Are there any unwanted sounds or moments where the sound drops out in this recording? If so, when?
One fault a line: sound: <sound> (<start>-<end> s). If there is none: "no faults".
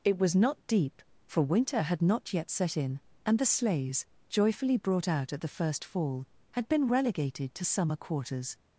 no faults